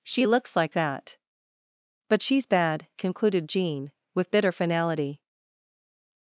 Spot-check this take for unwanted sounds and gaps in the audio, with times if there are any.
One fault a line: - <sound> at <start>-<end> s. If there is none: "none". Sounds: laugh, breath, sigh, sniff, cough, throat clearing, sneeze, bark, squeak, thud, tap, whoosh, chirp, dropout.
none